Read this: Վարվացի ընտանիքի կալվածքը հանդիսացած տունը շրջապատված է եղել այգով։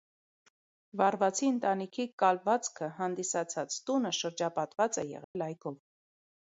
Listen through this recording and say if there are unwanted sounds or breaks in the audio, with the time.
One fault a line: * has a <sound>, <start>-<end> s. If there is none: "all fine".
* has a dropout, 5.2-5.4 s